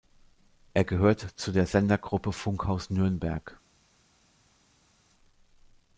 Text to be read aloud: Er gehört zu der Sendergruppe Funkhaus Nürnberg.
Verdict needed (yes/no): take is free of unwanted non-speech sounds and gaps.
yes